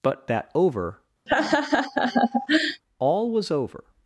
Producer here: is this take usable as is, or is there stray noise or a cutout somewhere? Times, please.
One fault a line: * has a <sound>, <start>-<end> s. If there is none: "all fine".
* has a laugh, 1.3-2.8 s